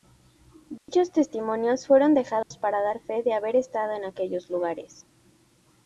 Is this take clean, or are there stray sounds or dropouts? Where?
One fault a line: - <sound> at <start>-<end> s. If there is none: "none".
- dropout at 0.8-0.9 s
- dropout at 2.4-2.5 s